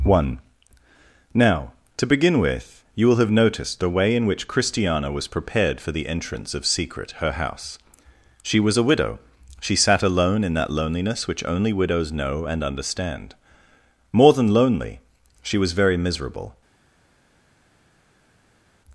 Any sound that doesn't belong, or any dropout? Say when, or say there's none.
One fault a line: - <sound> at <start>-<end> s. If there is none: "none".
none